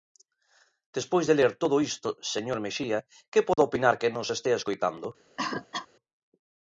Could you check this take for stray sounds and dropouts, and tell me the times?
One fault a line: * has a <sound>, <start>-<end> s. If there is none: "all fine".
* has a dropout, 3.5-3.6 s
* has a cough, 5.4-5.9 s